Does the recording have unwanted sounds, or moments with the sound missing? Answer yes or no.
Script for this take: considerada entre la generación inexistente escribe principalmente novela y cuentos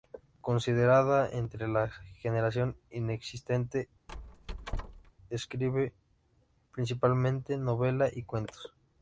yes